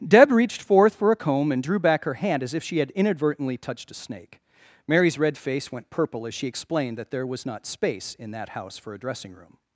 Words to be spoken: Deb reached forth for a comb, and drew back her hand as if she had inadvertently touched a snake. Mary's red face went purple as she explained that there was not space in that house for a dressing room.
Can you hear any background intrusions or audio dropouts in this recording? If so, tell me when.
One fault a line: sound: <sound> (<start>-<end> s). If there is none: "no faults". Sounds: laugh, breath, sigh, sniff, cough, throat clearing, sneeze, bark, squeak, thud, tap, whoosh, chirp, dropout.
no faults